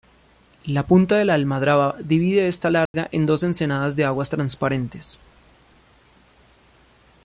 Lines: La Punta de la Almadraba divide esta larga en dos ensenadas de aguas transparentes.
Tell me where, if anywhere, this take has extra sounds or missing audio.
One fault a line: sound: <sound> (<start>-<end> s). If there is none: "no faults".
sound: dropout (2.9-2.9 s)